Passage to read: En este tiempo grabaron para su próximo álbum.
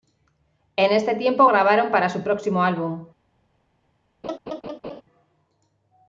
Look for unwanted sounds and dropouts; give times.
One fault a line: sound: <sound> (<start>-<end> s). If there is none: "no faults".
sound: laugh (4.2-5.0 s)